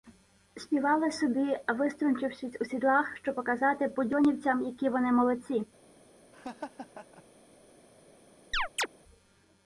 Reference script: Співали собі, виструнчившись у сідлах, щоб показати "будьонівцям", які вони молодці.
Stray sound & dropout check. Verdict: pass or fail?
fail